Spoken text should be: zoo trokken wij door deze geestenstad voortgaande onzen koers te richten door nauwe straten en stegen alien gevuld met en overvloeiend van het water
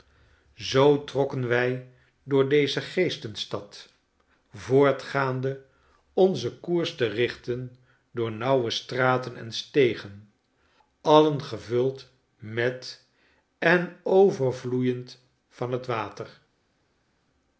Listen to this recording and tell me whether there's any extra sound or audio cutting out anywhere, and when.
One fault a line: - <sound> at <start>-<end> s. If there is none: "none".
none